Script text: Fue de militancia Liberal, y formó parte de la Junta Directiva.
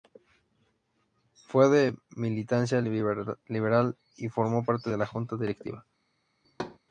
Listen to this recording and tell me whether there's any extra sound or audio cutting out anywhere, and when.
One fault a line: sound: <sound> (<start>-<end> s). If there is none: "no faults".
sound: thud (6.4-6.8 s)